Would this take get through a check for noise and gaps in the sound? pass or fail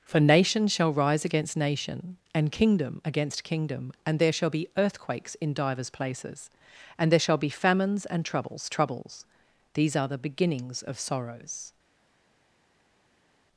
pass